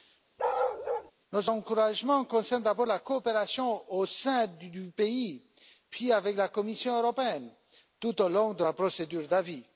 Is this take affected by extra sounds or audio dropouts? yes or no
yes